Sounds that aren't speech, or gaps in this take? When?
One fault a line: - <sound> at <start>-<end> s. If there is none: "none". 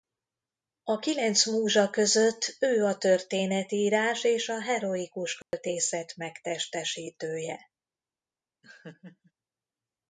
- dropout at 5.4-5.5 s
- laugh at 8.6-9.3 s